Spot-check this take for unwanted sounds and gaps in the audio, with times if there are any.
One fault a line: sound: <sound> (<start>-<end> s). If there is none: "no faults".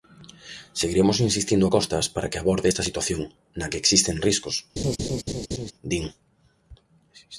sound: laugh (4.8-5.7 s)